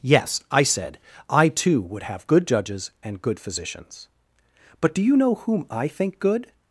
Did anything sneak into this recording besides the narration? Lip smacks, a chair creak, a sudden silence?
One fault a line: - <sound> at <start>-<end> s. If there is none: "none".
none